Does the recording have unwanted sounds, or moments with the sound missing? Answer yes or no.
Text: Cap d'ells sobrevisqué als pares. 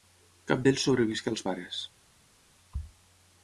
no